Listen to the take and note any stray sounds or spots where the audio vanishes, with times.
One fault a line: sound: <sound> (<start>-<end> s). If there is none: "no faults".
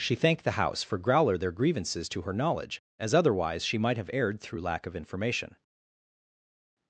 no faults